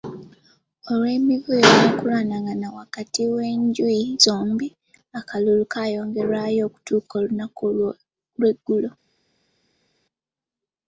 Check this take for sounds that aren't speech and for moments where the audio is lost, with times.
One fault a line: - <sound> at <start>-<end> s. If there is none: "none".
none